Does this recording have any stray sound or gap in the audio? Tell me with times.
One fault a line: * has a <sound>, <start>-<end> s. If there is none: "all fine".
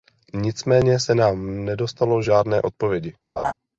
* has a laugh, 3.4-3.5 s